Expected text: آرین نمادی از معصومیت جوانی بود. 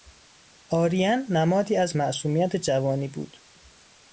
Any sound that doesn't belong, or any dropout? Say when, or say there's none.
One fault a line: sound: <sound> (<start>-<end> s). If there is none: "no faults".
no faults